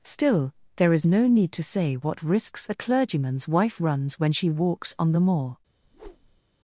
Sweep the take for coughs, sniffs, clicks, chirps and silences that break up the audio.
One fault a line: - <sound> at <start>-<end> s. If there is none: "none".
- whoosh at 5.8-6.4 s